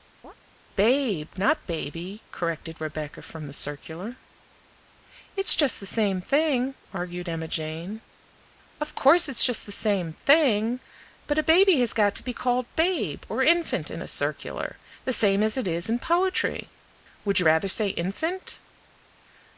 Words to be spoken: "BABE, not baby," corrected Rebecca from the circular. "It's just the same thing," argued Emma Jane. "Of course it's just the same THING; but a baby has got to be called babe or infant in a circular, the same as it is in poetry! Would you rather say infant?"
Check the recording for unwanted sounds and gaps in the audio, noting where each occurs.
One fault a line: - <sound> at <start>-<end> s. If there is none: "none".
- chirp at 0.2-0.3 s